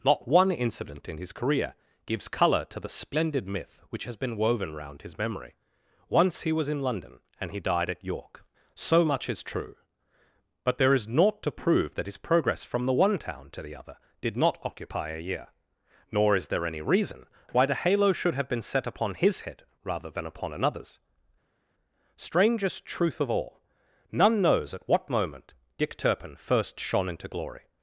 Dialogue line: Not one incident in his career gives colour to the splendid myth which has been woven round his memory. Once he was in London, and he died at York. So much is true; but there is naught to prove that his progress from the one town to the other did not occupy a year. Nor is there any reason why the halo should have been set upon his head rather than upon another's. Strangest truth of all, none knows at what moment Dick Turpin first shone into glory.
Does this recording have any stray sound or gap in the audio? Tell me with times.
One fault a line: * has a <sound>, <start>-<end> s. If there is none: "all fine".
all fine